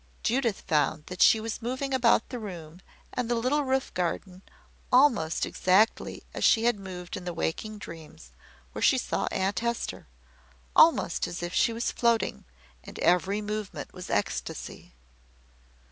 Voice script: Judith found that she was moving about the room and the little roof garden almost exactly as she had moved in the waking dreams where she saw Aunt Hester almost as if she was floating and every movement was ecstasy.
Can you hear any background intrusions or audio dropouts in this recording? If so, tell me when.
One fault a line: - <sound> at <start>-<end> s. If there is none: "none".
none